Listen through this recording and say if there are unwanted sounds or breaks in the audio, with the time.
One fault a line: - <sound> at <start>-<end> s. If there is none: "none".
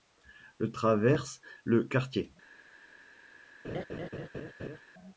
- laugh at 3.6-4.8 s